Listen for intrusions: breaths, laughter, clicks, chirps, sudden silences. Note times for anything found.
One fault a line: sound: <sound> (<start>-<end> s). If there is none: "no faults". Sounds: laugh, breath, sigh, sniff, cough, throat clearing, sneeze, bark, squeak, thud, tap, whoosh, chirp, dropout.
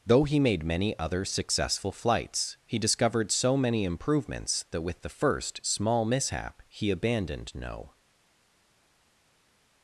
no faults